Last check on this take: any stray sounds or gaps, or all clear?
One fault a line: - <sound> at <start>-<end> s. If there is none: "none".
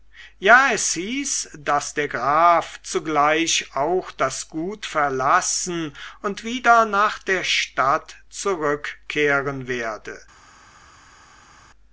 none